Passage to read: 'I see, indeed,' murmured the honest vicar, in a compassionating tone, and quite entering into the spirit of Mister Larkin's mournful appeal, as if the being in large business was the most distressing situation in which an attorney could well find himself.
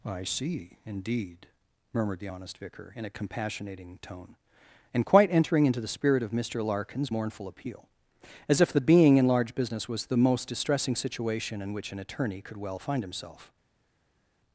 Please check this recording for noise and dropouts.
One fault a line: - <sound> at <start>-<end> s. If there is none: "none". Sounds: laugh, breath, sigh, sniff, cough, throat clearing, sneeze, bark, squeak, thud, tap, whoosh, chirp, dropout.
none